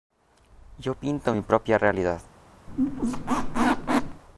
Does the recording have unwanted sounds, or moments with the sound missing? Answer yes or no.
yes